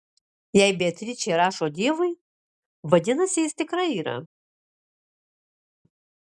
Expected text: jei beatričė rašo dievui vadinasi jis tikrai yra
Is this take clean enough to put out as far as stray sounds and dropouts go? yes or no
yes